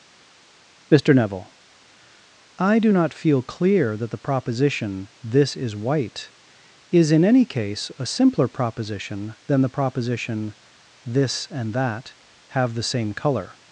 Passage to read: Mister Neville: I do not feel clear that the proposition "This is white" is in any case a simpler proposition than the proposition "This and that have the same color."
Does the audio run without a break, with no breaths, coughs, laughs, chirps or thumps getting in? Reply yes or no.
yes